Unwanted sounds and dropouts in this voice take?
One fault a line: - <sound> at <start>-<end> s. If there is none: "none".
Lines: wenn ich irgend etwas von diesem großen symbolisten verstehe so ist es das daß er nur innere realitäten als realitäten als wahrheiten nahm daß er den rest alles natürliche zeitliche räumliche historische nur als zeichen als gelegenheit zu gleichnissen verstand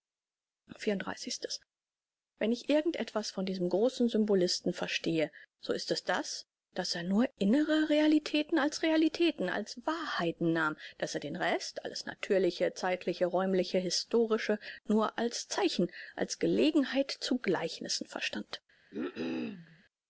- cough at 18.9-19.8 s